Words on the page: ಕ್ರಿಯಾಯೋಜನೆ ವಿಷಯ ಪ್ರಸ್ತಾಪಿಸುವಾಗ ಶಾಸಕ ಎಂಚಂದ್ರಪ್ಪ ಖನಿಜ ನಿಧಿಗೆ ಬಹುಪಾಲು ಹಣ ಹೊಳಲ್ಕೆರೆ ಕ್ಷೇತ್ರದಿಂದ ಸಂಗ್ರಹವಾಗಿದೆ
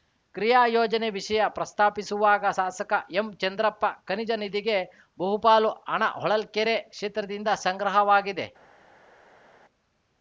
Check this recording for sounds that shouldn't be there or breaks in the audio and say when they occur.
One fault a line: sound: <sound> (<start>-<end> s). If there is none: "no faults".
no faults